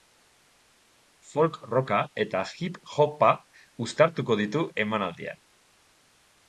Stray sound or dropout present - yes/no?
no